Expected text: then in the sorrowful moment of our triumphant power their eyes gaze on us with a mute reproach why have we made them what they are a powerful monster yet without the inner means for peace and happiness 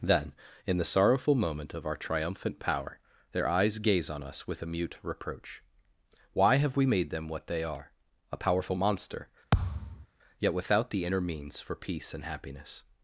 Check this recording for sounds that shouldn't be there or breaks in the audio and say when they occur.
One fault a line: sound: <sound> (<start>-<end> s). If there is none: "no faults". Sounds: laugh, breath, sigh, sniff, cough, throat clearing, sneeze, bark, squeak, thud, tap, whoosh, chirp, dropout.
sound: thud (9.5-10.1 s)